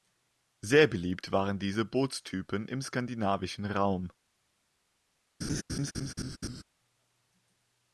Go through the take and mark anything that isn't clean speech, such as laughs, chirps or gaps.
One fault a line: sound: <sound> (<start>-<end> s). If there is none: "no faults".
sound: laugh (5.4-6.6 s)